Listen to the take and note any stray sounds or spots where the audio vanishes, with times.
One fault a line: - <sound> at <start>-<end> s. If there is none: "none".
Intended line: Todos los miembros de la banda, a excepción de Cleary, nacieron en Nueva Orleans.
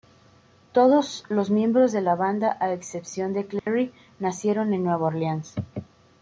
- dropout at 3.6-3.7 s